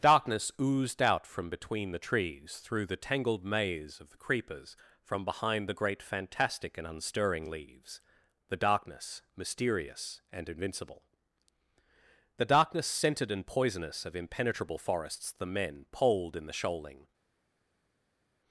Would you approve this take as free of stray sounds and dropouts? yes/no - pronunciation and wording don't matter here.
yes